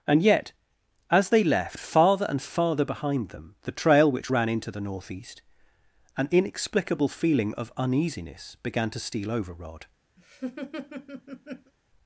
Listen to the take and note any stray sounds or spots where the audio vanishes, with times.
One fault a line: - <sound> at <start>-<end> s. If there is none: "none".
- laugh at 10.2-11.7 s